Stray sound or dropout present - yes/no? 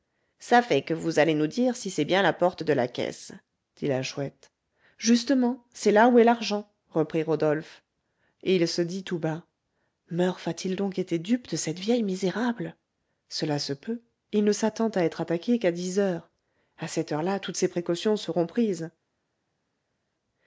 no